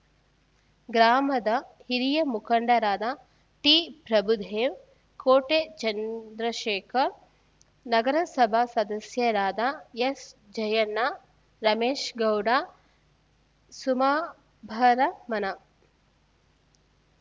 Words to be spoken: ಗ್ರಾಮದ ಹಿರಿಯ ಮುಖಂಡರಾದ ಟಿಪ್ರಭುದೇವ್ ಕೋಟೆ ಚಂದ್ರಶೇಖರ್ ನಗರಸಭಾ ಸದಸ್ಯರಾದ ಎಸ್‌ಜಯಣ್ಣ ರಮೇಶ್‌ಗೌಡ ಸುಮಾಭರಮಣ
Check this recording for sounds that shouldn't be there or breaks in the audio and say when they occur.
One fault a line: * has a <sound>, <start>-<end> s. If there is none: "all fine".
all fine